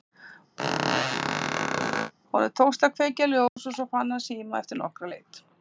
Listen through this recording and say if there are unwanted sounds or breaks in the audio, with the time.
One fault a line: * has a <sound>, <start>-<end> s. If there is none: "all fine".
* has a squeak, 0.6-2.1 s
* has a dropout, 3.5-3.6 s